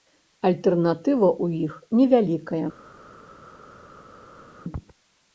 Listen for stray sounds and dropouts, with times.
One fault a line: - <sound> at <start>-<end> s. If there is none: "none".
none